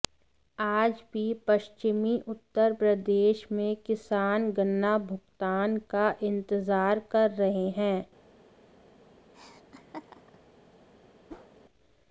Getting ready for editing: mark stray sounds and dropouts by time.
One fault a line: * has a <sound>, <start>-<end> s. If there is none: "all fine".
* has a laugh, 9.3-10.4 s
* has a whoosh, 11.3-11.5 s